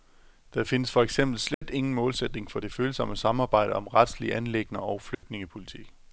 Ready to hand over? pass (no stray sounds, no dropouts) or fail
fail